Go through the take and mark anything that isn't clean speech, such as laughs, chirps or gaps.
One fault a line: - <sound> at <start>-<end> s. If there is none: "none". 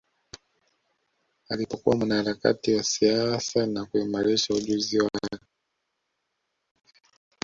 none